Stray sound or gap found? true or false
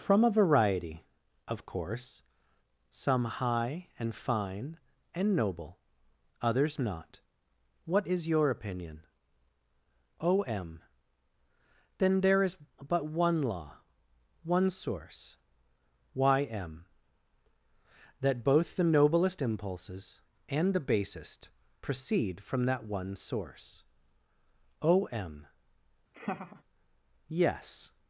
true